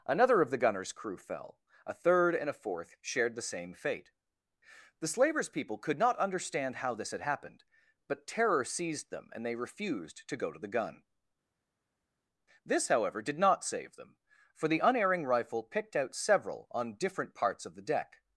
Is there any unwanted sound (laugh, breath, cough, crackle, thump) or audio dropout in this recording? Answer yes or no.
no